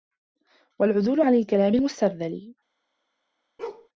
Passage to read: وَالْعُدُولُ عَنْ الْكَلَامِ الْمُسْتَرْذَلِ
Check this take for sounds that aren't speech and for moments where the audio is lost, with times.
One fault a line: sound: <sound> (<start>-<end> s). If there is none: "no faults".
sound: bark (3.6-3.9 s)